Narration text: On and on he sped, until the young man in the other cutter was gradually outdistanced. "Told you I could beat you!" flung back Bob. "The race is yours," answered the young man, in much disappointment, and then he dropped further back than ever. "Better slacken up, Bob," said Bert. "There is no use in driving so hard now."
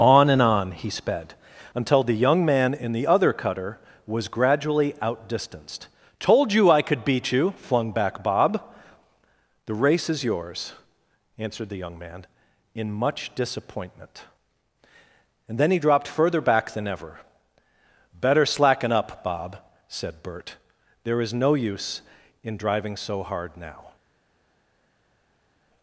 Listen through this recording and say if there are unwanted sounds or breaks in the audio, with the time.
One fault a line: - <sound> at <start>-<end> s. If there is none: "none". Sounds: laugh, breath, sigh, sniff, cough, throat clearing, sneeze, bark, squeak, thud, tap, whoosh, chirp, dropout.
none